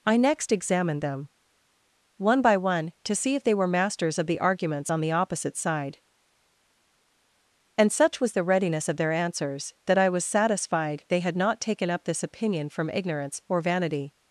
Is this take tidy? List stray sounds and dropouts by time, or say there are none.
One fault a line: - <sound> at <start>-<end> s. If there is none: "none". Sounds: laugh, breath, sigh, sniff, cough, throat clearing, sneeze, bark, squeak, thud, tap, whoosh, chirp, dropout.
none